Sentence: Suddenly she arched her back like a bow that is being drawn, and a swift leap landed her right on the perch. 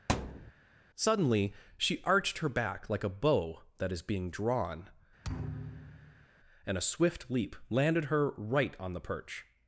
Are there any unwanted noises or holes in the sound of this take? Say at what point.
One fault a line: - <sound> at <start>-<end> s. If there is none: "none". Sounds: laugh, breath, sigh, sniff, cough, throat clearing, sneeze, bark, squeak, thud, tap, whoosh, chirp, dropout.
- thud at 0.1-0.5 s
- thud at 5.2-6.3 s